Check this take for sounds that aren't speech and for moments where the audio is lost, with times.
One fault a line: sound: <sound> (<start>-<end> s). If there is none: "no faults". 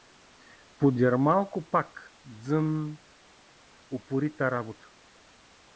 no faults